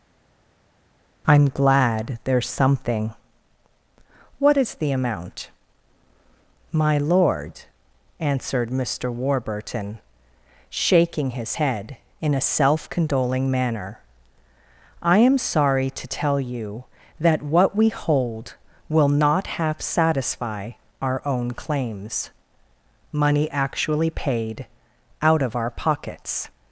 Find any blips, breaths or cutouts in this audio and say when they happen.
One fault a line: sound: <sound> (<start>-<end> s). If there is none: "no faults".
no faults